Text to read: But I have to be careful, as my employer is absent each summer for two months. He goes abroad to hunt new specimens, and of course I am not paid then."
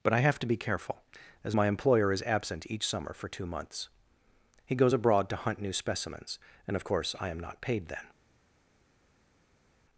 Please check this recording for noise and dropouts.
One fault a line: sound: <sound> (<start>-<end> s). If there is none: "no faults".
no faults